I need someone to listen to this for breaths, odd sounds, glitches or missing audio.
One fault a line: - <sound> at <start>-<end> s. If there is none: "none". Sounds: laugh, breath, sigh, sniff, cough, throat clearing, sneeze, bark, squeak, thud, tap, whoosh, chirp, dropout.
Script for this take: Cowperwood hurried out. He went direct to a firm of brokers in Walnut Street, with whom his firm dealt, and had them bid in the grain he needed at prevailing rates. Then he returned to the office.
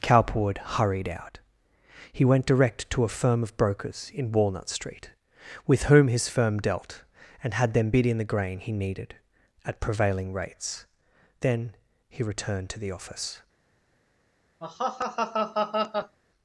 - laugh at 14.6-16.2 s